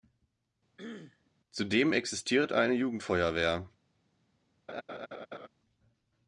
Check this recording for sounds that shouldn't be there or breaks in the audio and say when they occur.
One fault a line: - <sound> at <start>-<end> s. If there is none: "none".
- throat clearing at 0.8-1.3 s
- laugh at 4.7-5.5 s